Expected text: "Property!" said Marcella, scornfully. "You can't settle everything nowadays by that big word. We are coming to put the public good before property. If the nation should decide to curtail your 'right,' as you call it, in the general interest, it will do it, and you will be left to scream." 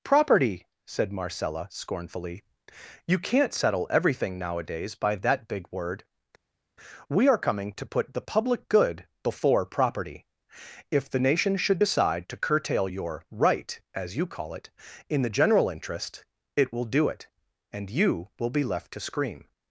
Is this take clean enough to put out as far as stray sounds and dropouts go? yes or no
yes